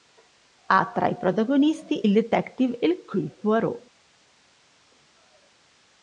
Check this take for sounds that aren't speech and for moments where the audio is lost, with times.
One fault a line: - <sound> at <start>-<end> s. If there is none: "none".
none